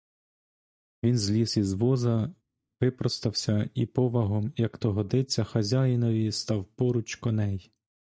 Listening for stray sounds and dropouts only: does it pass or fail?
pass